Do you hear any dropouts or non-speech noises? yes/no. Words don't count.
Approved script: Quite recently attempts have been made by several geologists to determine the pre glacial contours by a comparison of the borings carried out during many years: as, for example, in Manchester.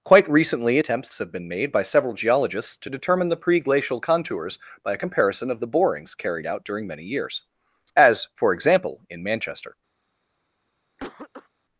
yes